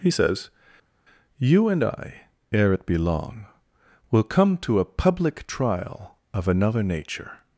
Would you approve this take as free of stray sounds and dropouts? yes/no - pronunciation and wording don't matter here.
yes